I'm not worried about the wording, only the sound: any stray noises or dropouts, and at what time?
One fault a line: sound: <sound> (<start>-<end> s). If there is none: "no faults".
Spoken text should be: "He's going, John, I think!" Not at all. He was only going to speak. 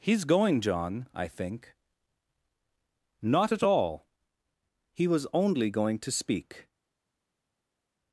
no faults